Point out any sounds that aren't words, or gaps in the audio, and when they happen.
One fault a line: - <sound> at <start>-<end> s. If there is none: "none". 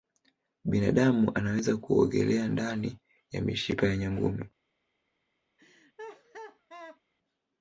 - laugh at 5.6-7.0 s